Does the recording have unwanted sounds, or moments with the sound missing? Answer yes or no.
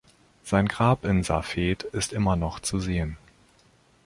no